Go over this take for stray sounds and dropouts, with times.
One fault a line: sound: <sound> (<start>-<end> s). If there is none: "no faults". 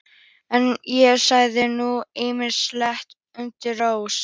no faults